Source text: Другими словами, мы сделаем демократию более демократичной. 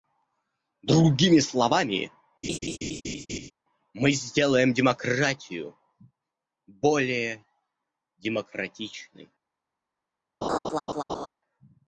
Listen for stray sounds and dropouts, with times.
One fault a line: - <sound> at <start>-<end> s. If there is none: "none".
- laugh at 2.4-3.5 s
- laugh at 10.4-11.3 s